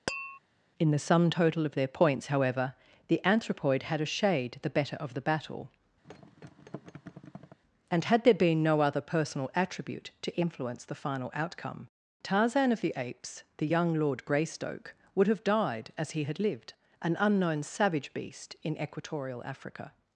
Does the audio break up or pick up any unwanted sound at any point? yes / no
yes